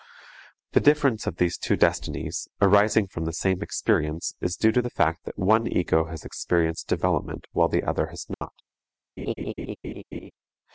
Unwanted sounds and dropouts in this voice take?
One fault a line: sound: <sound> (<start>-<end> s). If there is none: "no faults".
sound: dropout (8.3-8.4 s)
sound: laugh (9.2-10.3 s)